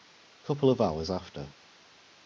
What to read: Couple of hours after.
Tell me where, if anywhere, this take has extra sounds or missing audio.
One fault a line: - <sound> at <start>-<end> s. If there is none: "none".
none